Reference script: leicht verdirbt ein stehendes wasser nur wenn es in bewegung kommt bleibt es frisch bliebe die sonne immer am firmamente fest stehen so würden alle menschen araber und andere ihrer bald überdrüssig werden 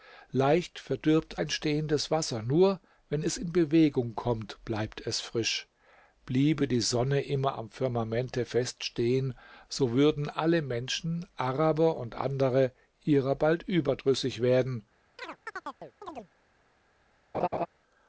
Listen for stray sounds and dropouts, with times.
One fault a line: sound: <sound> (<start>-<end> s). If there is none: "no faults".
sound: chirp (15.2-16.3 s)
sound: laugh (17.3-17.7 s)